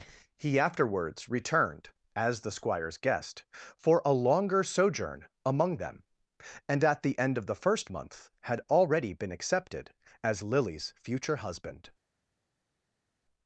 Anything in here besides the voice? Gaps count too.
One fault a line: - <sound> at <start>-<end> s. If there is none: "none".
none